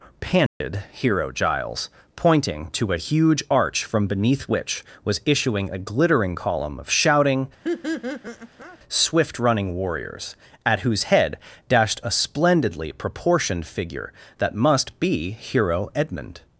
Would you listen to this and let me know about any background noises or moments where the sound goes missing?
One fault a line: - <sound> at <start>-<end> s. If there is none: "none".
- dropout at 0.5-0.6 s
- laugh at 7.6-8.8 s